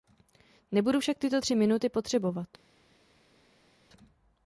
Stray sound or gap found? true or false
false